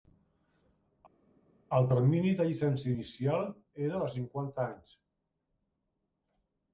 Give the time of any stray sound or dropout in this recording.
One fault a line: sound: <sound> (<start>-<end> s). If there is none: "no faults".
no faults